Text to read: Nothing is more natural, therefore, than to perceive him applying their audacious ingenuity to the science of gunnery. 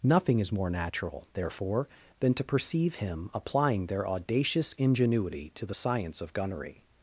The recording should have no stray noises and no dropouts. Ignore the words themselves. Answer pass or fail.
pass